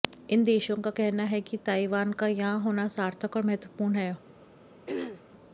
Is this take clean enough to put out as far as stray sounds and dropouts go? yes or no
no